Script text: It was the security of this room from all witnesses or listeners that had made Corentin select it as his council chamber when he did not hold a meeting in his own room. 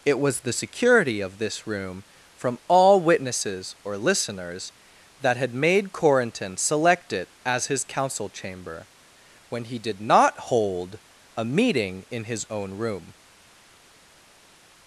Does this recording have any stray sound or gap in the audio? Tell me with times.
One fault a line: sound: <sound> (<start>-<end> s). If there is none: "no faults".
no faults